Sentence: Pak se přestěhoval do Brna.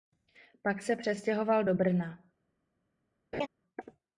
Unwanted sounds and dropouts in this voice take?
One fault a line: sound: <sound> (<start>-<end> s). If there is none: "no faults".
sound: laugh (3.3-3.5 s)